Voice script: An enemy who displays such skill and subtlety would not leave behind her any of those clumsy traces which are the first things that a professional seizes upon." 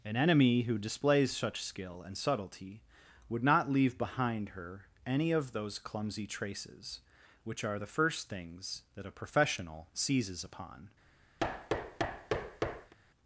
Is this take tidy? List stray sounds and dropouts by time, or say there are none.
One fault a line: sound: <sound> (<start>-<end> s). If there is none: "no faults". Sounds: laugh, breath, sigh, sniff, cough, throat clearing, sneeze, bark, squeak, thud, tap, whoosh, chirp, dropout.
sound: thud (11.4-12.9 s)